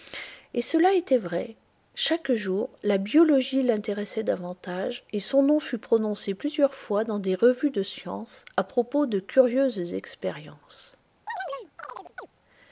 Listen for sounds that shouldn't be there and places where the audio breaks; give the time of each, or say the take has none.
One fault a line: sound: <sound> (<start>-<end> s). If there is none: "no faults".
sound: chirp (11.3-12.3 s)